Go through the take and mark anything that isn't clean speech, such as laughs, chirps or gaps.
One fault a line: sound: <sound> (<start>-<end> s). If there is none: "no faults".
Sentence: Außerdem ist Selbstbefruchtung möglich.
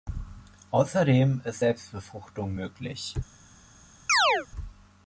sound: chirp (4.1-4.5 s)